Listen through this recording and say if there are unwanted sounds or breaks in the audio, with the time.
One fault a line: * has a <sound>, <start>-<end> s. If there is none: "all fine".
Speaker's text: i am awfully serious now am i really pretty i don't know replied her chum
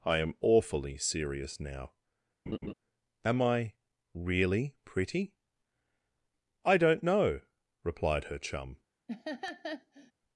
* has a laugh, 2.5-2.7 s
* has a laugh, 9.1-10.1 s